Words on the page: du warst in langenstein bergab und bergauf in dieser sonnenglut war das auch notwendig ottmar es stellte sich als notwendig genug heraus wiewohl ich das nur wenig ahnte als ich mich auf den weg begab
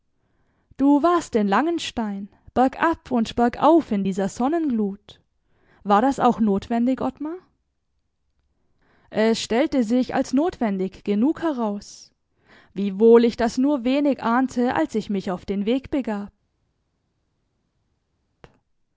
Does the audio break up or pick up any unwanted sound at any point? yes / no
no